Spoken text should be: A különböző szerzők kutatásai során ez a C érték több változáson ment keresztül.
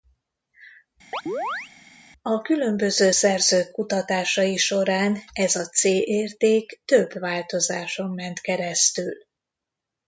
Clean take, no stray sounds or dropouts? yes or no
no